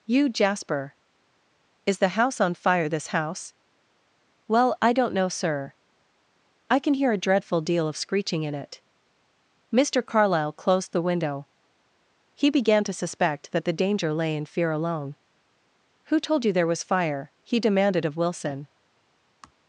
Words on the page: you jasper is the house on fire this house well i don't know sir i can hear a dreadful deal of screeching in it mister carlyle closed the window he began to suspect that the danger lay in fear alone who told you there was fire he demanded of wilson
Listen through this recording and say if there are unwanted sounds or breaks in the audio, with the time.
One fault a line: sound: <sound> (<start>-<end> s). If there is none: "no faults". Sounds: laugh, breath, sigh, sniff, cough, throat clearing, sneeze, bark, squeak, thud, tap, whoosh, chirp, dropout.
sound: sigh (19.4-19.5 s)